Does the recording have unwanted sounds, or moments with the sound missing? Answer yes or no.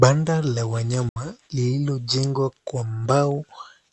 yes